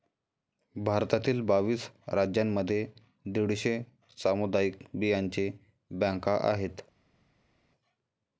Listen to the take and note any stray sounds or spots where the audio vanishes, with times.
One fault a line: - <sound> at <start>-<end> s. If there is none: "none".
none